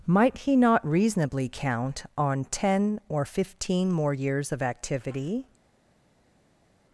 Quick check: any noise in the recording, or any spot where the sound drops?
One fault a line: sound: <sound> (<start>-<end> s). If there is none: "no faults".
no faults